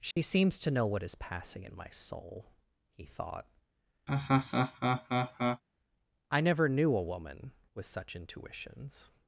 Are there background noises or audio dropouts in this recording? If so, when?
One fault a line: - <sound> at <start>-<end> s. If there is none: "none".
- dropout at 0.1-0.2 s
- laugh at 4.1-5.6 s